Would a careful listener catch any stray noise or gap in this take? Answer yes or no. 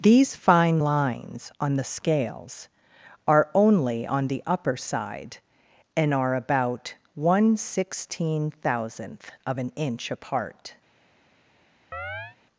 yes